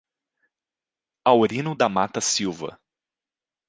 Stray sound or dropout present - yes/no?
no